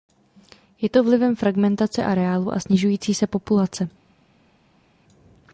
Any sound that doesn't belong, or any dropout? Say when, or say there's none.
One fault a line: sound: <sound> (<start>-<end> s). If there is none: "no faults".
no faults